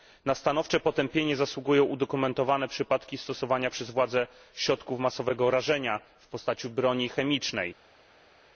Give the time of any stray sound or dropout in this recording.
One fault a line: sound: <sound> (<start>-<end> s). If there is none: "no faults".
no faults